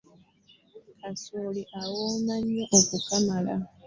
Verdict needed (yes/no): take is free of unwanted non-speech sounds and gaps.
yes